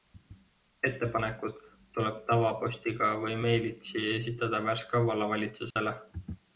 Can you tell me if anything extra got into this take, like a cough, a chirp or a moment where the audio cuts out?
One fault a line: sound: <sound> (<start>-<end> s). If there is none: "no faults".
sound: dropout (5.7-5.8 s)